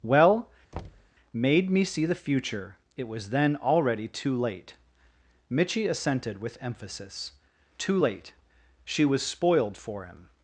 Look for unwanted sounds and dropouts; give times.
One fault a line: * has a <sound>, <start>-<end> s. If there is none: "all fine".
* has a thud, 0.7-1.1 s